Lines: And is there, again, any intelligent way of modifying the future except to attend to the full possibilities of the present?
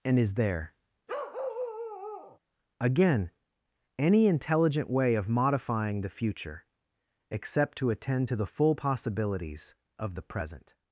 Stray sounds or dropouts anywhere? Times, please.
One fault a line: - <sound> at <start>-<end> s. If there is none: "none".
- bark at 1.1-2.4 s